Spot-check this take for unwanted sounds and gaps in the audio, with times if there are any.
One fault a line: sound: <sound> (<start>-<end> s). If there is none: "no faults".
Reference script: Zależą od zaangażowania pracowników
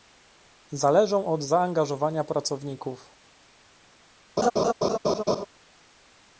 sound: laugh (4.4-5.5 s)